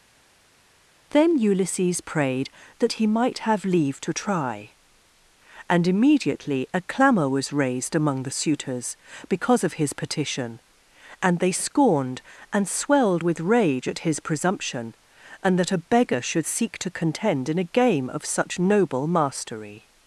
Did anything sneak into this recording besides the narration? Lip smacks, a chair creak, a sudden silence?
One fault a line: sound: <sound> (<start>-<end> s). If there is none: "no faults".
no faults